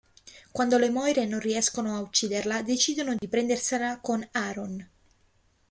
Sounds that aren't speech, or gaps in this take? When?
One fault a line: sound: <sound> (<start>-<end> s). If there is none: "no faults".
sound: dropout (3.2-3.2 s)